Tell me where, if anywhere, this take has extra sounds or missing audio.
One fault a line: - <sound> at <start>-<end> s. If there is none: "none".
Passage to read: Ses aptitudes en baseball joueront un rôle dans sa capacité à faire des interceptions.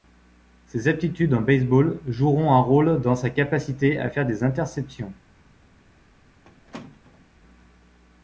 - squeak at 6.4-7.3 s